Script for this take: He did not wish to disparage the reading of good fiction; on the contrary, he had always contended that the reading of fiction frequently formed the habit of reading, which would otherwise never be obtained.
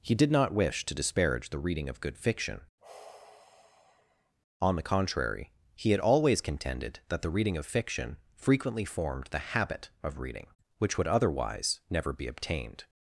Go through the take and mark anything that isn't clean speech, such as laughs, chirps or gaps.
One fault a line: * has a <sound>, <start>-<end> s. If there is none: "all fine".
* has a sigh, 2.8-4.4 s